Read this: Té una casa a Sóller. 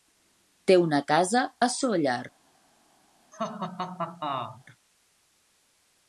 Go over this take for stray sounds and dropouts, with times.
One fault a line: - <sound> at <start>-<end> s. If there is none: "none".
- laugh at 3.3-4.6 s